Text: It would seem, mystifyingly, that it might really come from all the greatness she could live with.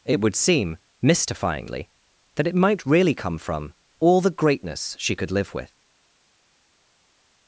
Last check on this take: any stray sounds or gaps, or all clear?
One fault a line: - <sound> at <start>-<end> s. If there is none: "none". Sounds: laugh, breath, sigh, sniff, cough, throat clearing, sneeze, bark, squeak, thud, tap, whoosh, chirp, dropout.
none